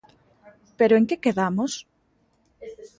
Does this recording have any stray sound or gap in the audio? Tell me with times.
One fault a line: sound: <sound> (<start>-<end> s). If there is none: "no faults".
no faults